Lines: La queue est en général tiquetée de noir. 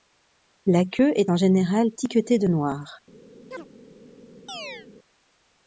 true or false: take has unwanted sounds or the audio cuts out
true